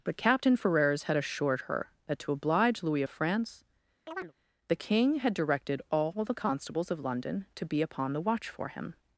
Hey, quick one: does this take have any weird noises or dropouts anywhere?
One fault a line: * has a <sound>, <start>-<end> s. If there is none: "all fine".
* has a chirp, 4.1-4.3 s